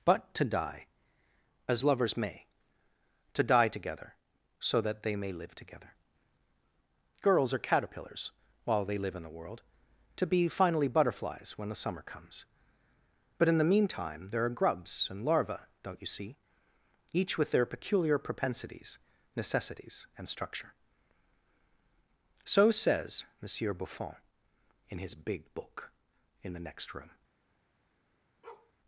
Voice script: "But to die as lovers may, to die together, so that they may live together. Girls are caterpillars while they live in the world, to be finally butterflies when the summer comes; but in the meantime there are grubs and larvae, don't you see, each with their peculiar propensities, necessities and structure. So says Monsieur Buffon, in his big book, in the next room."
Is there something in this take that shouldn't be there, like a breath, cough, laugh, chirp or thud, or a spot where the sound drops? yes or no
yes